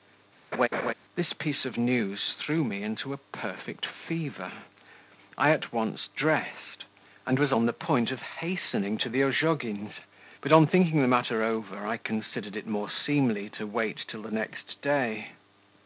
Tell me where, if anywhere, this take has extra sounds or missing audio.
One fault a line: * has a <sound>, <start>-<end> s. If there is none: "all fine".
* has a laugh, 0.5-0.9 s